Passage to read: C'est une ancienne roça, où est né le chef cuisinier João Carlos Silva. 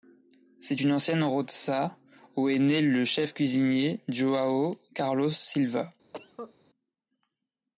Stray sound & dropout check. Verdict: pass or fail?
fail